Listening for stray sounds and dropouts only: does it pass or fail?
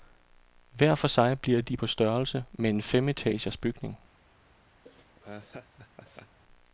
fail